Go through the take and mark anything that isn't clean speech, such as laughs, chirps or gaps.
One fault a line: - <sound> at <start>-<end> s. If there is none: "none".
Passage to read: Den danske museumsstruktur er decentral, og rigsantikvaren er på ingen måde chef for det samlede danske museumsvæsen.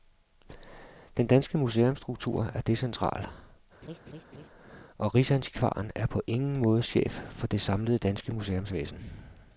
- laugh at 3.8-4.5 s